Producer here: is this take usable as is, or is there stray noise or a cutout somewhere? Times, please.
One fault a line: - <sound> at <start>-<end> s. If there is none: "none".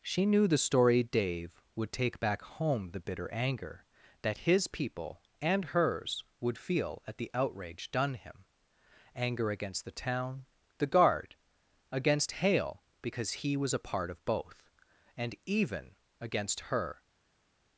none